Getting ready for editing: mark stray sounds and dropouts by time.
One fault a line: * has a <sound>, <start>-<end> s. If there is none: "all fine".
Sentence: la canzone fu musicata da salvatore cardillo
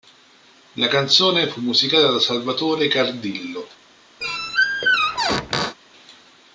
* has a squeak, 4.2-5.8 s